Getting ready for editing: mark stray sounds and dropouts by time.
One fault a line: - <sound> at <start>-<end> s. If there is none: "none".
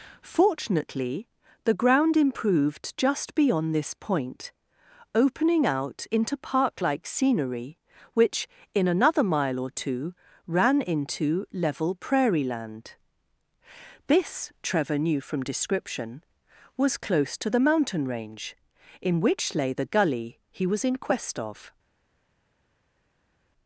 none